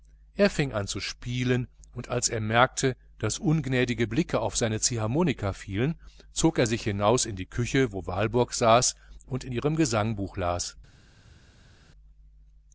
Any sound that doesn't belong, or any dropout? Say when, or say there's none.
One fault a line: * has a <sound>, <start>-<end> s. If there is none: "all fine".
all fine